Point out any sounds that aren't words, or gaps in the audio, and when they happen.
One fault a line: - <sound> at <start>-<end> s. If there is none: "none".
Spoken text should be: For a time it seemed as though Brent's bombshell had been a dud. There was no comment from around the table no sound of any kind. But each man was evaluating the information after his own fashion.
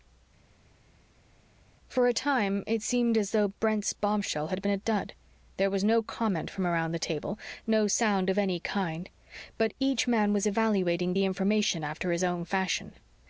none